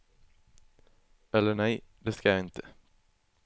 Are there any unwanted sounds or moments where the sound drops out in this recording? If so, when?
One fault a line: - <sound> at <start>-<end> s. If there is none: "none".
none